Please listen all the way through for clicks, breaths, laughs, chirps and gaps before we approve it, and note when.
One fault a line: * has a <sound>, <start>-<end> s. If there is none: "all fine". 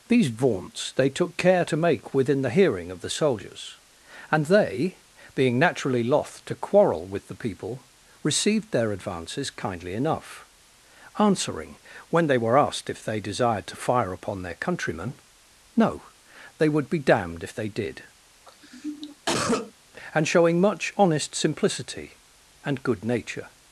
* has a cough, 18.5-19.7 s